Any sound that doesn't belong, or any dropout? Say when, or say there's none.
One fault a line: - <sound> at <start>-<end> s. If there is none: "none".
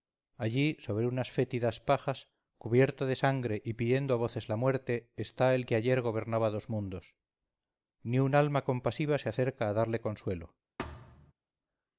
- thud at 10.8-11.3 s